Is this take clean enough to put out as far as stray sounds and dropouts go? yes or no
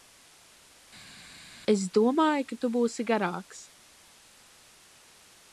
yes